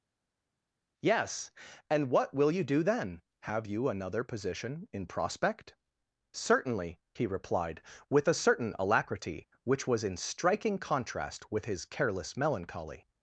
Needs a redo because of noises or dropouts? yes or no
no